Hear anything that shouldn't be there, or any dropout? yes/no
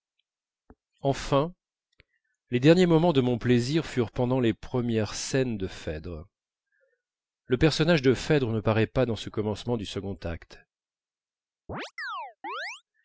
yes